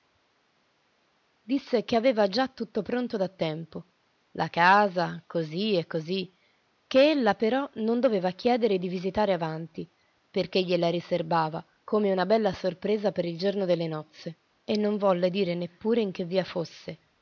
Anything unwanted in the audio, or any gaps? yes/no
no